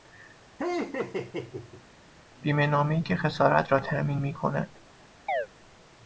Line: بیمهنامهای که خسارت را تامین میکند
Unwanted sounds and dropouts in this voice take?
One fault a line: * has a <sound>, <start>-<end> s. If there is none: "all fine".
* has a laugh, 0.6-1.9 s
* has a chirp, 5.3-5.5 s